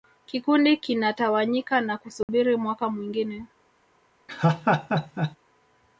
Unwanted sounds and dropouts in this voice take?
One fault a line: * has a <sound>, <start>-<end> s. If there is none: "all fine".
* has a dropout, 2.2-2.3 s
* has a laugh, 4.3-5.4 s